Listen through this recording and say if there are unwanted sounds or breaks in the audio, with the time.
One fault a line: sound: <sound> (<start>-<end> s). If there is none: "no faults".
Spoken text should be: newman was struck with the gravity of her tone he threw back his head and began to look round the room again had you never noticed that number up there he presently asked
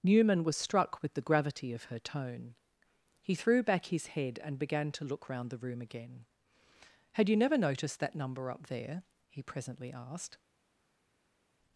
no faults